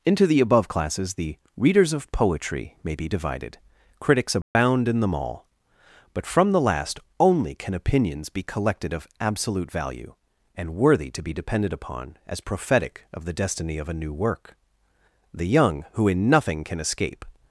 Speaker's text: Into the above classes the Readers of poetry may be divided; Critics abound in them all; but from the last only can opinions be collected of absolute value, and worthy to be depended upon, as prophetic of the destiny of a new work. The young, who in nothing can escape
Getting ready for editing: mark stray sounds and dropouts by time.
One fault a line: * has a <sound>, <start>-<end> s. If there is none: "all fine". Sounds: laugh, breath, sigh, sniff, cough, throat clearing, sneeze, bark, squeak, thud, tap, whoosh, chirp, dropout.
* has a dropout, 4.4-4.6 s